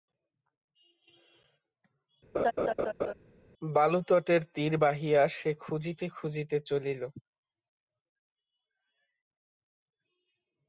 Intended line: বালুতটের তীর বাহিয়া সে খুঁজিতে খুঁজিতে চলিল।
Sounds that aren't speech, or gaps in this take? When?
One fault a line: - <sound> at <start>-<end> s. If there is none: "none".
- laugh at 2.3-3.1 s